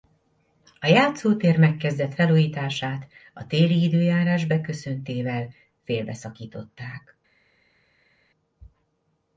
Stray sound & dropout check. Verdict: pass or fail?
pass